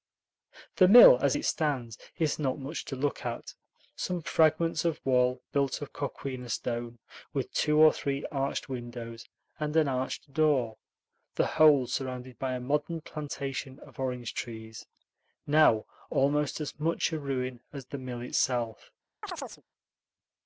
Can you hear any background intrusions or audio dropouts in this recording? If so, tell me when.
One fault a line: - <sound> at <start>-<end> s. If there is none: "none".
- chirp at 19.2-19.6 s